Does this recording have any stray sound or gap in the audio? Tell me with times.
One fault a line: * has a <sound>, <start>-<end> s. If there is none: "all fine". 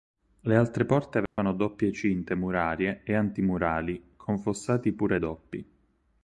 * has a dropout, 1.3-1.4 s